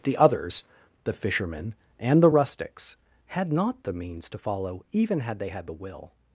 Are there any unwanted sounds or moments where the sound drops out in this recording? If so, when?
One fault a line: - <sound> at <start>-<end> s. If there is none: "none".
none